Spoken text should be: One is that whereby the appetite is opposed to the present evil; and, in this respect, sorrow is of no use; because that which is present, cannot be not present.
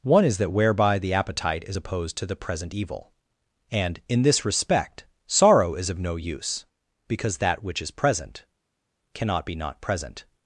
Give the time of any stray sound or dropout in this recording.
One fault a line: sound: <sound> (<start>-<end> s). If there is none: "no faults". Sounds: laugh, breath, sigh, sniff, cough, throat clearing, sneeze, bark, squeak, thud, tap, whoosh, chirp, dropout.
no faults